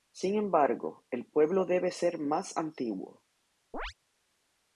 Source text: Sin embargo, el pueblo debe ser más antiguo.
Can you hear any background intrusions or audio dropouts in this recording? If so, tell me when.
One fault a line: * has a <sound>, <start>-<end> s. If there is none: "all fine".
* has a chirp, 3.7-3.9 s